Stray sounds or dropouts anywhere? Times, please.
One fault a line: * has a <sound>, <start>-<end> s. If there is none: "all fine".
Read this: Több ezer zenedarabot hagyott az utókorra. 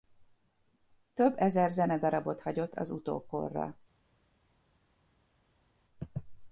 all fine